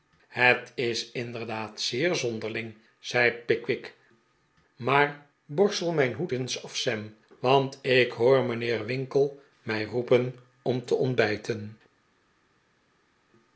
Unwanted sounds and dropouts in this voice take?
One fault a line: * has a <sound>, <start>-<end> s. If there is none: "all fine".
all fine